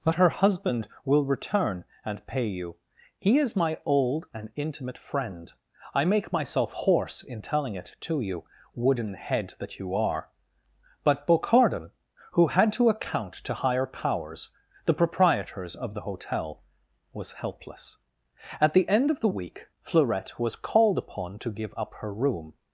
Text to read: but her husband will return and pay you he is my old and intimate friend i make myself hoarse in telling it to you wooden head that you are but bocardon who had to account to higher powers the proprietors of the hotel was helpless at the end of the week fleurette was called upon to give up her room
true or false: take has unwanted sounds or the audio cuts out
false